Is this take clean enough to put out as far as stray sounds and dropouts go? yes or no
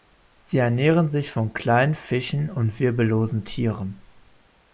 yes